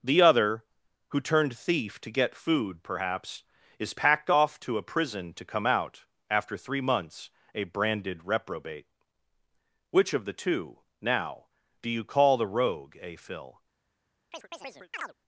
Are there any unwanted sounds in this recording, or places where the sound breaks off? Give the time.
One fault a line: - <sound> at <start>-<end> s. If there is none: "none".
- chirp at 14.3-15.1 s